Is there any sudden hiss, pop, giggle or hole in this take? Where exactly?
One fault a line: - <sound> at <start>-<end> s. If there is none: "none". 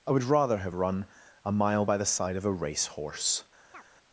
- chirp at 3.7-3.8 s